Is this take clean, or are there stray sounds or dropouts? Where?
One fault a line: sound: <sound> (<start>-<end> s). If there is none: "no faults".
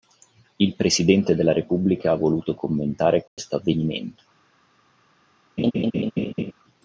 sound: dropout (3.3-3.4 s)
sound: laugh (5.6-6.5 s)